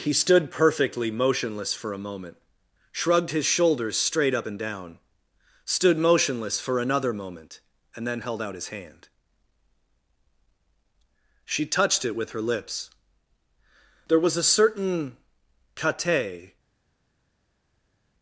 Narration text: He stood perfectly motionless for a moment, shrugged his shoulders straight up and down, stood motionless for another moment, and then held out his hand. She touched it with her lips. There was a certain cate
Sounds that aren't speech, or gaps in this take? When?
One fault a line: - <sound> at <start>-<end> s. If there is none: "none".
none